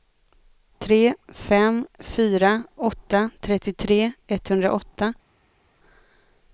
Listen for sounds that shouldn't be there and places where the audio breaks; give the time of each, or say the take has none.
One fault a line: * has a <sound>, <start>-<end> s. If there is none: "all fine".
all fine